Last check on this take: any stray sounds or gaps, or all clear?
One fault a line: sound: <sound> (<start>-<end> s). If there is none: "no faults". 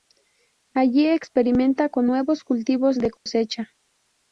sound: dropout (3.2-3.3 s)